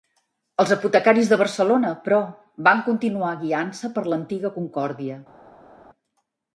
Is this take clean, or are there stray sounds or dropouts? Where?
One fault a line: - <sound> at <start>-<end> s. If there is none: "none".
none